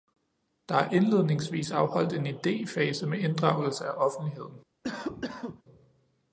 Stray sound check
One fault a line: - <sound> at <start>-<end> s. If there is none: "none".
- cough at 4.8-5.6 s